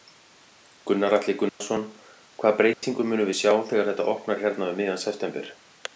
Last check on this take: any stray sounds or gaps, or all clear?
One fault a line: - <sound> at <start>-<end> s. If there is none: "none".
- dropout at 1.5-1.6 s
- dropout at 2.7-2.8 s